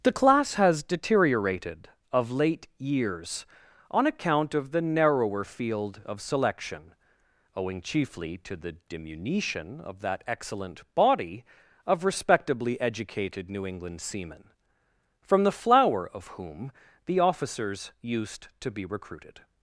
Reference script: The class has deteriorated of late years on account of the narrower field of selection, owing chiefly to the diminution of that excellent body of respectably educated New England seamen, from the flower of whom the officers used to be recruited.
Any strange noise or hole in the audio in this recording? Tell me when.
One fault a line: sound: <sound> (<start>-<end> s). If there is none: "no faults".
no faults